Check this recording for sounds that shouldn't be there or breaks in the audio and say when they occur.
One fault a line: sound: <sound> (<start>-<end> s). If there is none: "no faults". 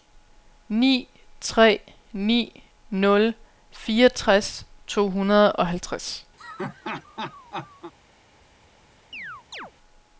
sound: laugh (6.4-7.9 s)
sound: chirp (9.1-9.7 s)